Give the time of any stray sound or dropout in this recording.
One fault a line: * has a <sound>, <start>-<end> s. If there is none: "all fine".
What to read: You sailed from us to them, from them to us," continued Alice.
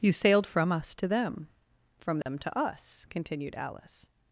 * has a dropout, 2.2-2.3 s